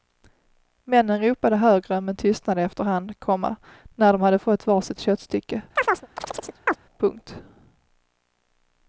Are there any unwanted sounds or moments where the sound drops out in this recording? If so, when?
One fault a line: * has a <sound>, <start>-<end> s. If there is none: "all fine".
* has a chirp, 5.8-6.8 s